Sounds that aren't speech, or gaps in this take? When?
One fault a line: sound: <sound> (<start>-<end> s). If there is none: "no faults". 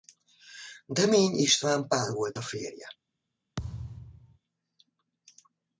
sound: thud (3.6-4.4 s)